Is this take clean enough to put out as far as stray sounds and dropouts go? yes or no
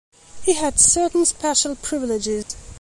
no